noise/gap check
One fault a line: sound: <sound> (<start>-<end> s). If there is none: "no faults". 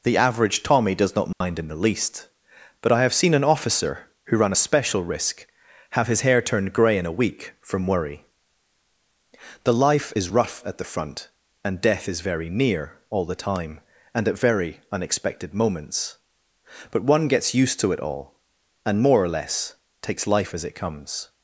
sound: dropout (1.3-1.4 s)